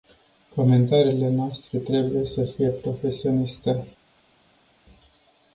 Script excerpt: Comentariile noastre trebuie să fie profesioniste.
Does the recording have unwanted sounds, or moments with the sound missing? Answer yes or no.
no